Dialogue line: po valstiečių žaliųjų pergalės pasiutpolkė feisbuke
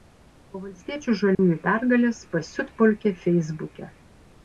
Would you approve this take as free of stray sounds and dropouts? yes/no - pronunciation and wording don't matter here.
no